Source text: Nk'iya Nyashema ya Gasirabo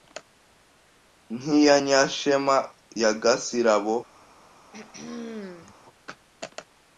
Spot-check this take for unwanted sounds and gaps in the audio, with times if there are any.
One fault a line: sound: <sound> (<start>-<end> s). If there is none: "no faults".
sound: throat clearing (4.7-5.7 s)